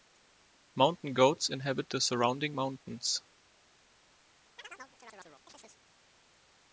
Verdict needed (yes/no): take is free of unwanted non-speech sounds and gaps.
no